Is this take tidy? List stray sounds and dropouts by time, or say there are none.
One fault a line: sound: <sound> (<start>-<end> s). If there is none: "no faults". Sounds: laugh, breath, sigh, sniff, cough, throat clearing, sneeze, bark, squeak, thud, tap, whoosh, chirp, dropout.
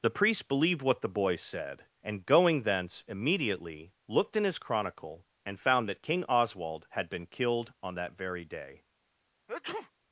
sound: sneeze (9.5-9.9 s)